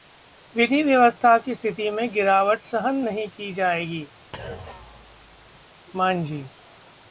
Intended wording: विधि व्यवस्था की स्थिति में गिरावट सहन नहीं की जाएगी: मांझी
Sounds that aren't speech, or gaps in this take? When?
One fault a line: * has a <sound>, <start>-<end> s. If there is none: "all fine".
* has a thud, 4.3-5.7 s